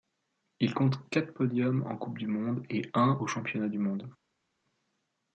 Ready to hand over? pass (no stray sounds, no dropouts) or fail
pass